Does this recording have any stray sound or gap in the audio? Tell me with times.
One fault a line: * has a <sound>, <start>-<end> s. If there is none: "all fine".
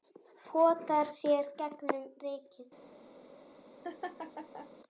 * has a laugh, 3.8-4.7 s